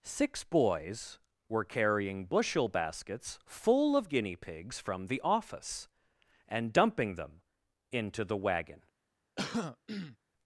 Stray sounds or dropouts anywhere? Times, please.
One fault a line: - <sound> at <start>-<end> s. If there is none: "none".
- throat clearing at 9.4-10.2 s